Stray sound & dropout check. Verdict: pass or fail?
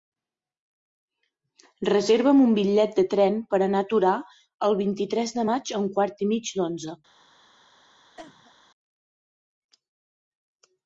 fail